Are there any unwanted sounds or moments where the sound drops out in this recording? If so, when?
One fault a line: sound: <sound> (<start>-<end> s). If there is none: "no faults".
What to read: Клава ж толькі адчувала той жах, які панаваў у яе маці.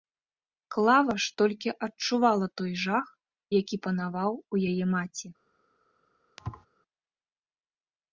sound: thud (6.4-6.7 s)